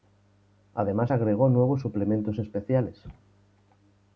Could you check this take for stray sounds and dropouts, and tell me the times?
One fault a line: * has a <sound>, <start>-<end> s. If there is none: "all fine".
all fine